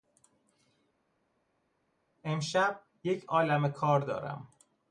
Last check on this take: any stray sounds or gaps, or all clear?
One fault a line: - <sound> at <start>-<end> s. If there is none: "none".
none